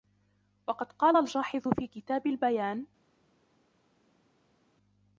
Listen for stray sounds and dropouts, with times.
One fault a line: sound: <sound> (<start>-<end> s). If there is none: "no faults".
no faults